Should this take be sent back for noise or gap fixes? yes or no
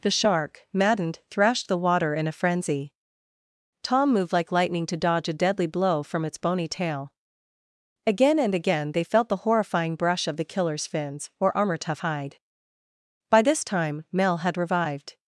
no